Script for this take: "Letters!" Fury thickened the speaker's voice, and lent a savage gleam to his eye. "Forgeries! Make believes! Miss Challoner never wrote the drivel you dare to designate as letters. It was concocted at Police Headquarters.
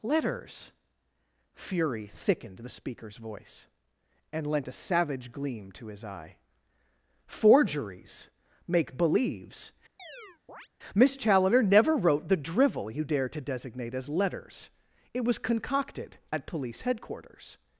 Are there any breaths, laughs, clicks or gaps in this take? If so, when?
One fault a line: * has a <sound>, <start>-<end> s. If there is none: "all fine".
* has a chirp, 10.0-10.7 s